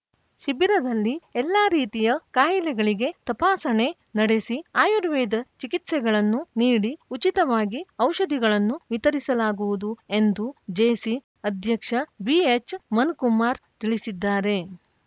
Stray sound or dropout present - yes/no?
no